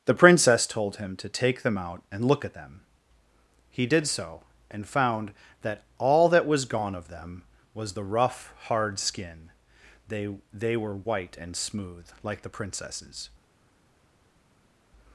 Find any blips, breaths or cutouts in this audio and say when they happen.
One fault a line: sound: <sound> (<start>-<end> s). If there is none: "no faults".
no faults